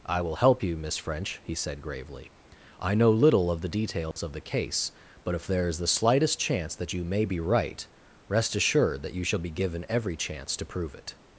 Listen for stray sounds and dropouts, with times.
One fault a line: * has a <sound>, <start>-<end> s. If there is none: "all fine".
* has a dropout, 4.1-4.2 s